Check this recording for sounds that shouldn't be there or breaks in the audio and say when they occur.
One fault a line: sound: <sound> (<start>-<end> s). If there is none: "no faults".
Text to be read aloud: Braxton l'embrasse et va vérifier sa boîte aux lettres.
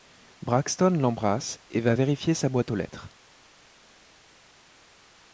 no faults